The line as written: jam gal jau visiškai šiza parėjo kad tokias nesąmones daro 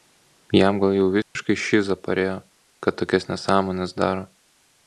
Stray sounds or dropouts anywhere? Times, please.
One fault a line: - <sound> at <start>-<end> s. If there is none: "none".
- dropout at 1.2-1.4 s